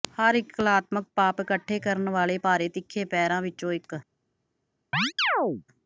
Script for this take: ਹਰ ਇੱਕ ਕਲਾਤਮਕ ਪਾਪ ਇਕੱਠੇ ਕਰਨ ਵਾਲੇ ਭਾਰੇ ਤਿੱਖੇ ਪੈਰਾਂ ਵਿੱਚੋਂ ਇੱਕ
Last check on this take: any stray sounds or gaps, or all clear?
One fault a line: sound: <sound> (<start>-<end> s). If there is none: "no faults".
sound: chirp (4.9-5.6 s)